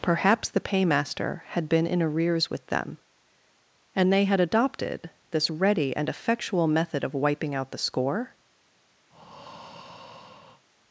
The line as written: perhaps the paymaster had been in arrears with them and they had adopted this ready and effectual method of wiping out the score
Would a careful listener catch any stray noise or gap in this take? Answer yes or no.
yes